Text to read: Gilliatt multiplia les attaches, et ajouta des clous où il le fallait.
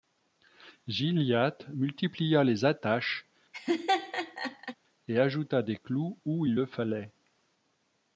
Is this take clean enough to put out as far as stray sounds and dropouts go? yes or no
no